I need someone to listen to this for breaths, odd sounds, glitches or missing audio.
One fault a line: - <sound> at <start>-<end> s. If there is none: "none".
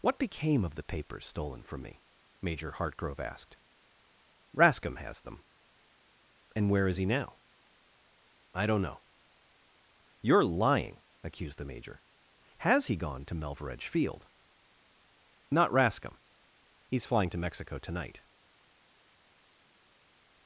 none